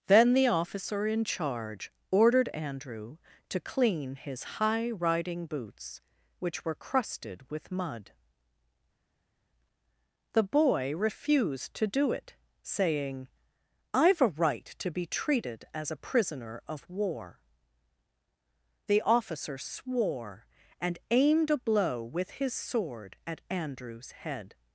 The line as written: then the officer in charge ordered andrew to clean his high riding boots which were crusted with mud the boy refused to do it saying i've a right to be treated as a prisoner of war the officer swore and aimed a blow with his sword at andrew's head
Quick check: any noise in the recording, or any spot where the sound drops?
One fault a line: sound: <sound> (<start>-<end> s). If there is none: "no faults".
no faults